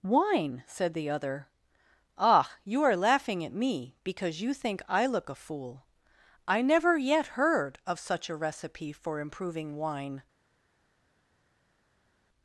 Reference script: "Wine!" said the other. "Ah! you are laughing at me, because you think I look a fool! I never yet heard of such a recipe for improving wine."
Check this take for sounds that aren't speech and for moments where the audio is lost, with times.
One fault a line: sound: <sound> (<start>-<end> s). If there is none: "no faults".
no faults